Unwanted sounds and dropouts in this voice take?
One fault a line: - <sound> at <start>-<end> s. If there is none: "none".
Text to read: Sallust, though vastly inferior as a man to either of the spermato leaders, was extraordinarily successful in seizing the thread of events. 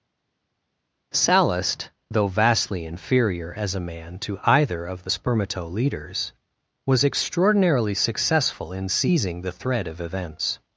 none